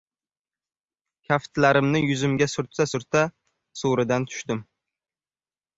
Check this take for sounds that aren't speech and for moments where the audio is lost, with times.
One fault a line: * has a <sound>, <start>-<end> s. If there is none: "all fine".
all fine